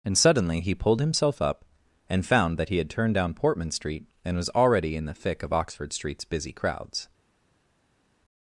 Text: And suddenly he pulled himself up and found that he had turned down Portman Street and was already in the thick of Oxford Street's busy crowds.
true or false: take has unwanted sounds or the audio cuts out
false